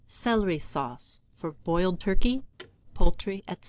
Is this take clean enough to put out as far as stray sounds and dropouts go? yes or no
no